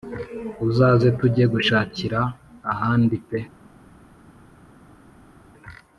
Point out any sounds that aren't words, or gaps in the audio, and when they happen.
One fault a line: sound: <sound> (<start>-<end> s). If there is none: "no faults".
no faults